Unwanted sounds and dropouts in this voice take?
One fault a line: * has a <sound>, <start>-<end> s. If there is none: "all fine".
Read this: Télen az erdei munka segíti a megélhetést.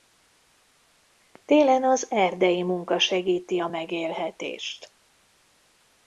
all fine